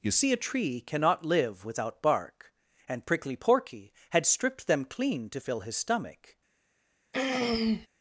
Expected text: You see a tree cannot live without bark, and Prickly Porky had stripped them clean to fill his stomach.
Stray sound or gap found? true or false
true